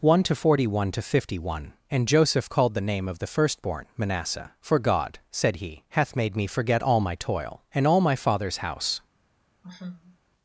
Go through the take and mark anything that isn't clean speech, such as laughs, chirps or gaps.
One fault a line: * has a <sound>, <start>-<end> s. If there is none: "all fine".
* has a sigh, 9.6-10.2 s